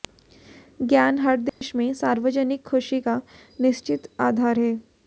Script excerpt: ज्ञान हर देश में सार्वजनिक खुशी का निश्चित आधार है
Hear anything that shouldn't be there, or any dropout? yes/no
yes